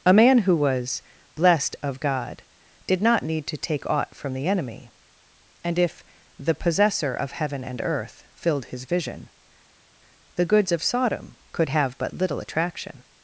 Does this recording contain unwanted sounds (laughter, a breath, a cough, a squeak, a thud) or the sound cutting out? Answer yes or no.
no